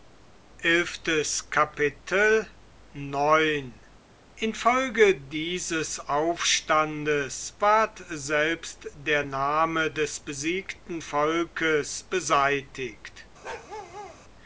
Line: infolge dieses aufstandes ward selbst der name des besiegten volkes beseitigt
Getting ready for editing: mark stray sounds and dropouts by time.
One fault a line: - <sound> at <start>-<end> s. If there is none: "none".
- bark at 13.4-14.2 s